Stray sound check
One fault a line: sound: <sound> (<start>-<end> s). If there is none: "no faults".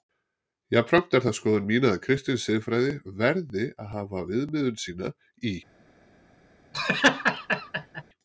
sound: laugh (6.7-8.0 s)